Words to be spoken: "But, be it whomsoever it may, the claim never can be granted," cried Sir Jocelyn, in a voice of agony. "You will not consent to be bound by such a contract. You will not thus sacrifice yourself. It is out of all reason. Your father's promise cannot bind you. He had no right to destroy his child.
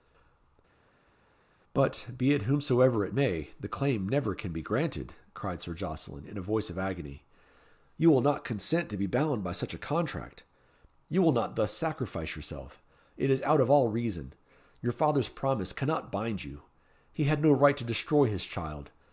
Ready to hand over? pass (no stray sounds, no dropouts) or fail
pass